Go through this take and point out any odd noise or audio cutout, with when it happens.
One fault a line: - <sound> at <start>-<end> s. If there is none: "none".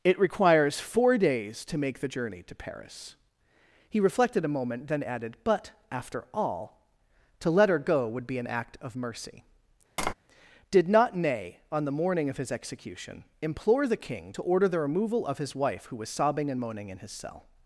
- tap at 10.0-10.1 s